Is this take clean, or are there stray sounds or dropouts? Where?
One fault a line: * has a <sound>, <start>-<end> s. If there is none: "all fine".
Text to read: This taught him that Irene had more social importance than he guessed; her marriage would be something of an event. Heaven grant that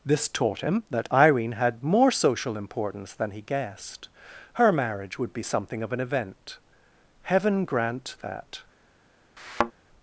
* has a thud, 9.4-9.7 s